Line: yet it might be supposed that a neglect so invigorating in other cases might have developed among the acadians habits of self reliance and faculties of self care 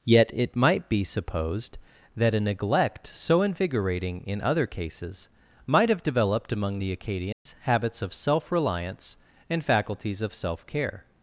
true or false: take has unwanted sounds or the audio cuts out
true